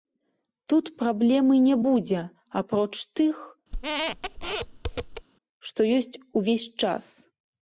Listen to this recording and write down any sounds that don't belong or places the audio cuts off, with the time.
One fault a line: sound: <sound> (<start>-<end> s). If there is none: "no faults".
sound: squeak (3.7-5.3 s)